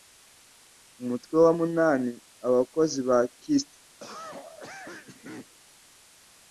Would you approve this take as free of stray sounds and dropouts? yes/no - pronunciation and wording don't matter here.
no